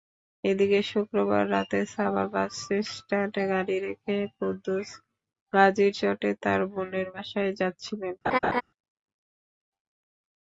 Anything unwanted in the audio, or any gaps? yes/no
yes